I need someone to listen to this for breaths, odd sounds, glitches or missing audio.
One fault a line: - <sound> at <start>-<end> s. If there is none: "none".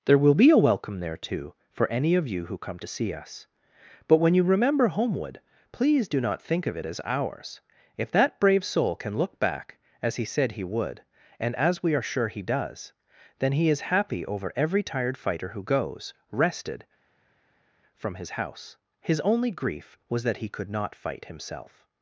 none